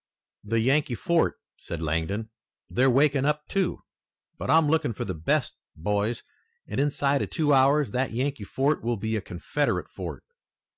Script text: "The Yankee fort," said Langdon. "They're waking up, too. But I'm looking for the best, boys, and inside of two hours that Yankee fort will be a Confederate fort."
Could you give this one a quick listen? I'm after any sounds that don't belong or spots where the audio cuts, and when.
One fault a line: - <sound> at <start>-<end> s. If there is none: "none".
none